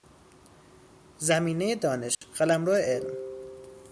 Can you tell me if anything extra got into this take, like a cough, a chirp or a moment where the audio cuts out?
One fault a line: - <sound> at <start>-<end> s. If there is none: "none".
- dropout at 2.1-2.2 s